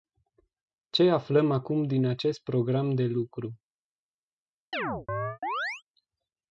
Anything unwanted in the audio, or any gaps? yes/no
yes